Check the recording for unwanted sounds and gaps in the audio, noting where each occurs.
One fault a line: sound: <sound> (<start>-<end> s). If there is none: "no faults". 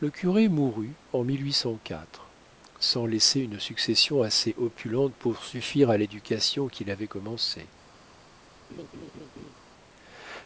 sound: laugh (8.7-9.6 s)